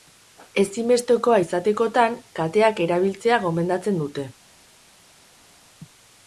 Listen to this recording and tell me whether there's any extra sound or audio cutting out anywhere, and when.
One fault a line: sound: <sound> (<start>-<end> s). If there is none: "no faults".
no faults